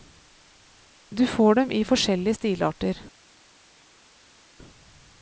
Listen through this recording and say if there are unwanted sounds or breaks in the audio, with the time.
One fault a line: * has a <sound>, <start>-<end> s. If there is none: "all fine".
all fine